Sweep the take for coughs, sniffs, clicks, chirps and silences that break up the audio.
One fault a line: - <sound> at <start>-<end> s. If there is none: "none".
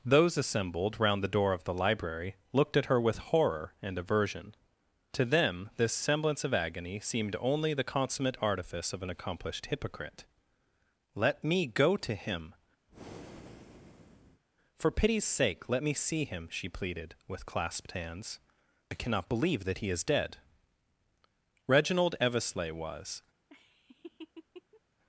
- breath at 12.9-14.4 s
- laugh at 23.5-24.8 s